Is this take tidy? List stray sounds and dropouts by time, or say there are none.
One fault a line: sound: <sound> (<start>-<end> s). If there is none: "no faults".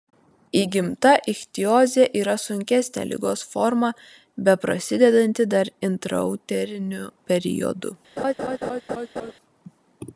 sound: laugh (8.2-9.3 s)